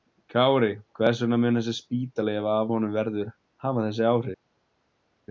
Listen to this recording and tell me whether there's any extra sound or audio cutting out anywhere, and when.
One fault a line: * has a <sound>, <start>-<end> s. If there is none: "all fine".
all fine